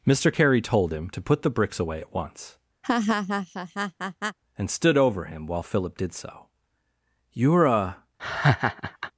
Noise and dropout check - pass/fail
fail